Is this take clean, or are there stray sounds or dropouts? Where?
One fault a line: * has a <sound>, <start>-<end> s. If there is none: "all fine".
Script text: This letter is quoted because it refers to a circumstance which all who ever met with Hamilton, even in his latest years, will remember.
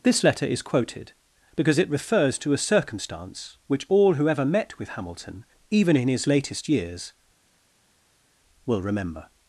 all fine